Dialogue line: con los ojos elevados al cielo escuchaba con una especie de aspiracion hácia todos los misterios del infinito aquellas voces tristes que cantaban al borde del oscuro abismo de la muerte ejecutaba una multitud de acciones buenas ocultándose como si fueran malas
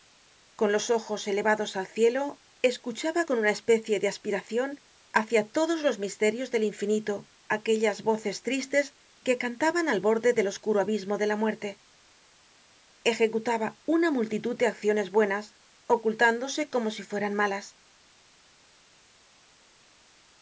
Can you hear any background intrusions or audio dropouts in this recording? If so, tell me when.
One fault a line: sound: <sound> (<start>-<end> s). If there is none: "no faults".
no faults